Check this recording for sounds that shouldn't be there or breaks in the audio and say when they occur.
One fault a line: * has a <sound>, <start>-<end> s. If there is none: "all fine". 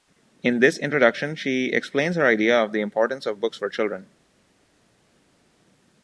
all fine